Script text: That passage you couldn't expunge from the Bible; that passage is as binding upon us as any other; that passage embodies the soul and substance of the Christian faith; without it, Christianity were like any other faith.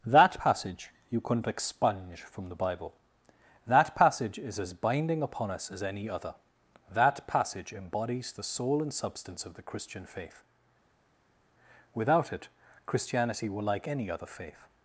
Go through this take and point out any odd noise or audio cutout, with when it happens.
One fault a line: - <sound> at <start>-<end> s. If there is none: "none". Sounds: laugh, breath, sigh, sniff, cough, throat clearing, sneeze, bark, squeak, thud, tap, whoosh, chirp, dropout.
none